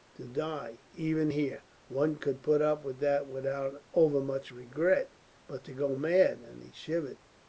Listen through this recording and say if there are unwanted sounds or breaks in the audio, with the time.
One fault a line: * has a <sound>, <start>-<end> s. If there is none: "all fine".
all fine